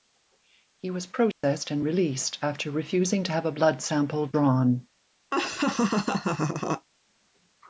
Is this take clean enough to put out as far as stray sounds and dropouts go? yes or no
no